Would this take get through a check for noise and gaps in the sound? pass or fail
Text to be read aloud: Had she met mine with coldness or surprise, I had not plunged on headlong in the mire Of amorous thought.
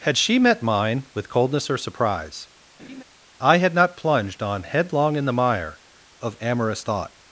fail